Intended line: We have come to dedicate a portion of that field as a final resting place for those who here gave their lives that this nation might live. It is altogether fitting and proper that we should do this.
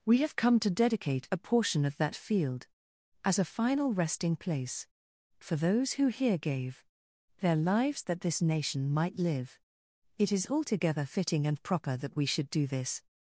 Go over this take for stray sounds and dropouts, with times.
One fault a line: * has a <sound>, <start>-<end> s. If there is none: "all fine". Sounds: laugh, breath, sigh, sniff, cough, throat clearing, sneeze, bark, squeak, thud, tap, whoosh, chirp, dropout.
all fine